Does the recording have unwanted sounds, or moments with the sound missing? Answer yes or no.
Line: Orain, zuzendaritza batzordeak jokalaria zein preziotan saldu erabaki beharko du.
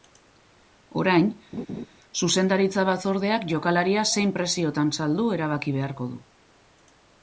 yes